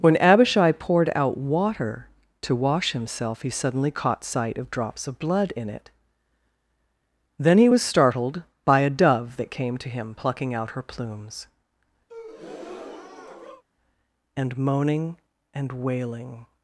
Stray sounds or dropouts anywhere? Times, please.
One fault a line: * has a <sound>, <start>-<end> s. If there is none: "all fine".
* has a breath, 12.1-13.6 s